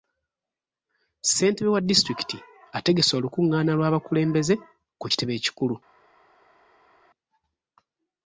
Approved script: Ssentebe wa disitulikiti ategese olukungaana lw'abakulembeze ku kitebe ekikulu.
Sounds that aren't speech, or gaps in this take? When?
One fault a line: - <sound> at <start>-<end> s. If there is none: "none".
none